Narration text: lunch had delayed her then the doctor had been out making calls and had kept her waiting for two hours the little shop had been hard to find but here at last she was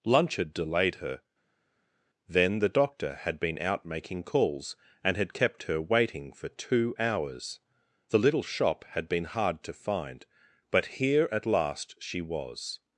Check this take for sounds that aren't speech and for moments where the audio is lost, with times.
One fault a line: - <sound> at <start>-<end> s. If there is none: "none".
none